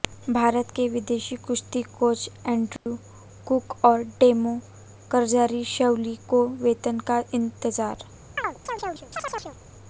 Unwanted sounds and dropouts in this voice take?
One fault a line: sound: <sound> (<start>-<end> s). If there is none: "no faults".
sound: dropout (2.8-2.9 s)
sound: chirp (8.4-9.6 s)